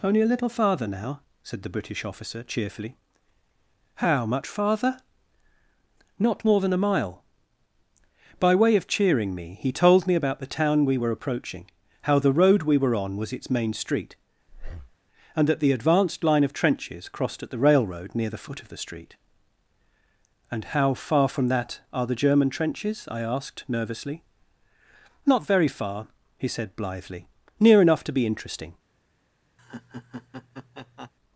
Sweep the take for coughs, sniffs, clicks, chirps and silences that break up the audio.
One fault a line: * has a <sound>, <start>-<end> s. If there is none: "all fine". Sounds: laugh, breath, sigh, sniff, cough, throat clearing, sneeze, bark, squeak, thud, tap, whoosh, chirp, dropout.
* has a breath, 14.5-15.0 s
* has a laugh, 29.6-31.1 s